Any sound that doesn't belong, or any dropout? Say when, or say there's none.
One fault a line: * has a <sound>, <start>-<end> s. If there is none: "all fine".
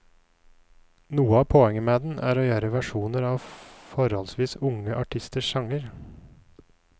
all fine